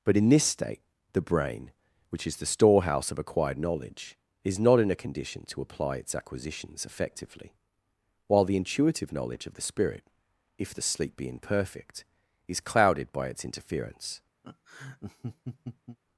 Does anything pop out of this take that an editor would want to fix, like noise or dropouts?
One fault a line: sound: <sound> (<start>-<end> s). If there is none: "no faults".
sound: laugh (14.4-16.0 s)